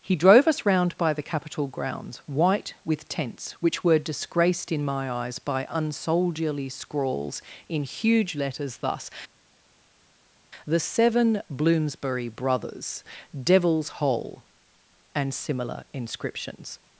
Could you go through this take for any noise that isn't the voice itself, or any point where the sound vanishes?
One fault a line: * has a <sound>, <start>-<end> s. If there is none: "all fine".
all fine